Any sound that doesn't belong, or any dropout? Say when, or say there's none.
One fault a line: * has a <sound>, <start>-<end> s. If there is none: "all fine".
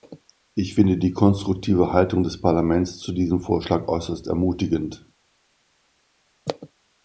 all fine